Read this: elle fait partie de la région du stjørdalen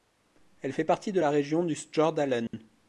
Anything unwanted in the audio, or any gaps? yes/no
yes